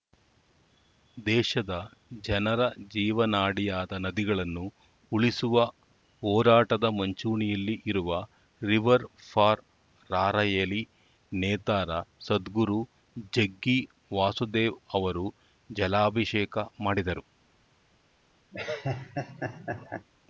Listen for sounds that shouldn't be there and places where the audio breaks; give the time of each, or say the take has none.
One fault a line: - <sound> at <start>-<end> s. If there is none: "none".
- laugh at 18.5-20.1 s